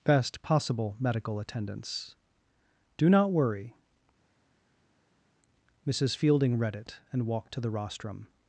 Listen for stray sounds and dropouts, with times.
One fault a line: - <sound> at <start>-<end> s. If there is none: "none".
none